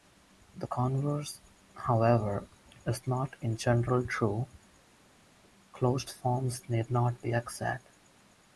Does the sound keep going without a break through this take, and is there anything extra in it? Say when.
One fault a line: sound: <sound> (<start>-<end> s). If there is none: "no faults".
no faults